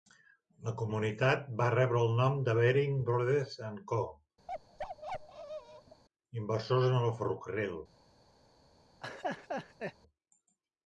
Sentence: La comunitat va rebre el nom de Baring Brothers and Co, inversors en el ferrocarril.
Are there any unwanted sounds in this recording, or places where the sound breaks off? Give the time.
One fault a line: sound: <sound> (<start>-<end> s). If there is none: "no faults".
sound: bark (4.5-6.0 s)
sound: laugh (9.0-9.9 s)